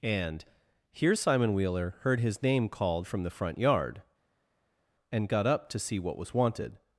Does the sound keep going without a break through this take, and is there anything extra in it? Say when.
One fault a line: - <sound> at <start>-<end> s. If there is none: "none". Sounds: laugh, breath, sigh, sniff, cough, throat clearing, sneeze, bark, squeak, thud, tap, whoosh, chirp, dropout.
none